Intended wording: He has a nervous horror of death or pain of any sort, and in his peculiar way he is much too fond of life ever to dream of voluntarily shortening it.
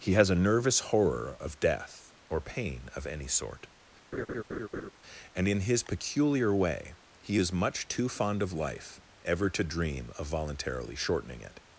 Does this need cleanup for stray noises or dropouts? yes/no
yes